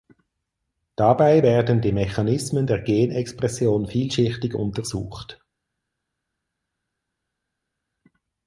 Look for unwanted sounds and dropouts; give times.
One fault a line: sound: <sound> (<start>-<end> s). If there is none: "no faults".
no faults